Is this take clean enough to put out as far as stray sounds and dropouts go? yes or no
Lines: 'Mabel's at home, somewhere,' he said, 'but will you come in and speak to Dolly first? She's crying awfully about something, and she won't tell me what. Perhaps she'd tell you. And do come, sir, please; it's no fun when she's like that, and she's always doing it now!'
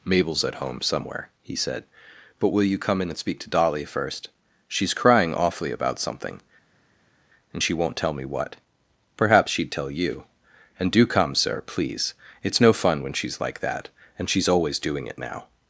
yes